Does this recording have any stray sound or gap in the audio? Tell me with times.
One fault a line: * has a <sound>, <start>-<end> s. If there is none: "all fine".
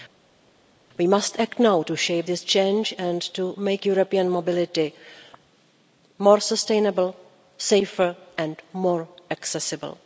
all fine